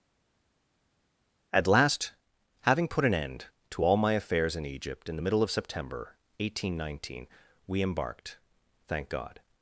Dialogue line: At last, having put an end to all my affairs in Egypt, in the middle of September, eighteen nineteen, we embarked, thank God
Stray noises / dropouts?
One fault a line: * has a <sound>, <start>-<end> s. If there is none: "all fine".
all fine